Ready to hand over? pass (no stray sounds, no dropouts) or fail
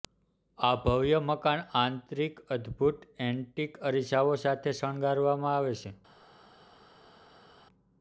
pass